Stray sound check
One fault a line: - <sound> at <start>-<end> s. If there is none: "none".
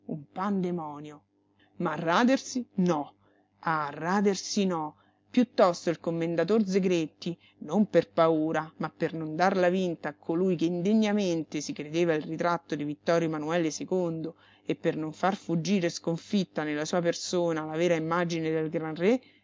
none